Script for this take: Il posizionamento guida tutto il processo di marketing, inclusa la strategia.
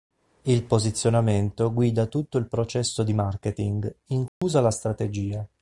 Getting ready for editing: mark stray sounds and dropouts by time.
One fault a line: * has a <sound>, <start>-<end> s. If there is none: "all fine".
* has a dropout, 4.3-4.4 s